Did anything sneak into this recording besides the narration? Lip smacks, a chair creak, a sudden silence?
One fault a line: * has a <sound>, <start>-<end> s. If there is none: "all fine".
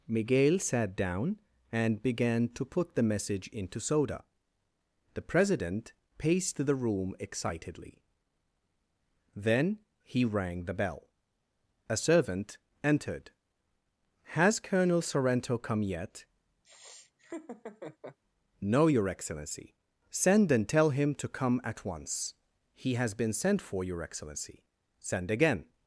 * has a laugh, 16.6-18.2 s